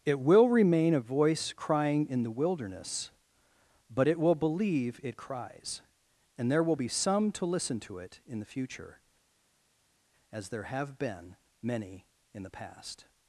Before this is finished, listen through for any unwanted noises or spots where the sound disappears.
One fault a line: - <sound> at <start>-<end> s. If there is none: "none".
none